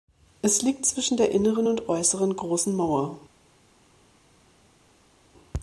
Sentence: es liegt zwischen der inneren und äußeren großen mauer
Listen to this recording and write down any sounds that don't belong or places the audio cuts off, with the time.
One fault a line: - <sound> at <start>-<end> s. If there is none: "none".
none